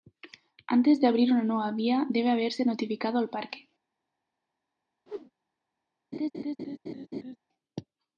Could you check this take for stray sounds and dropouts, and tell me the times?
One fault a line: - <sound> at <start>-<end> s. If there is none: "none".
- whoosh at 5.1-5.3 s
- laugh at 6.1-7.4 s